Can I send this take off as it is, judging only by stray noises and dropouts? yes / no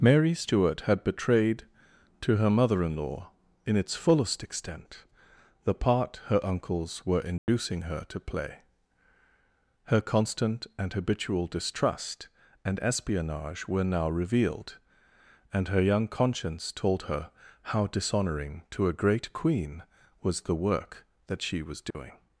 no